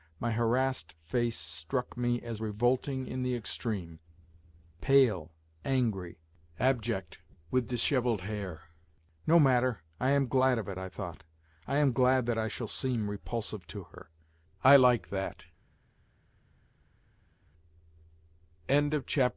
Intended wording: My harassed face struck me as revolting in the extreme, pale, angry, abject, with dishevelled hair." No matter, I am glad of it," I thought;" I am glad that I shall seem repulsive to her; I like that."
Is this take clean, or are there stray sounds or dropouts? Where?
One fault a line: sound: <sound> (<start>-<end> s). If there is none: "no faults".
no faults